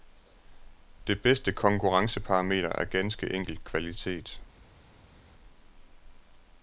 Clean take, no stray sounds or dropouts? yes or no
yes